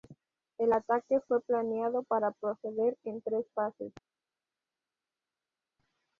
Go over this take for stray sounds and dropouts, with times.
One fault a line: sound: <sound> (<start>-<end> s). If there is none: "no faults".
no faults